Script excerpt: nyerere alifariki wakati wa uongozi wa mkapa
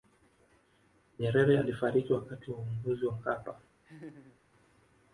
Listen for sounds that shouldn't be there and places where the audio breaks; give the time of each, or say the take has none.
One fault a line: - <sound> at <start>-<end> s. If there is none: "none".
- laugh at 3.8-4.4 s